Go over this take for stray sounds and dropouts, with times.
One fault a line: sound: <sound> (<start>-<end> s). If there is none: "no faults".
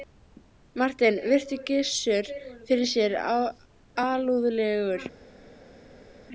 no faults